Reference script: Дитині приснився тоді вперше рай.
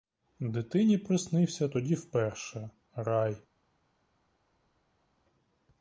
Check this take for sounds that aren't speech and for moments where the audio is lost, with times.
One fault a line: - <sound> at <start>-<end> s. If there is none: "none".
none